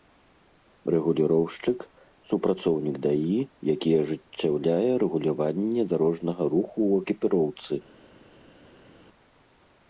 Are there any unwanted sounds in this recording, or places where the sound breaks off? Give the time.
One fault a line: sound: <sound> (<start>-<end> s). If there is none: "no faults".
no faults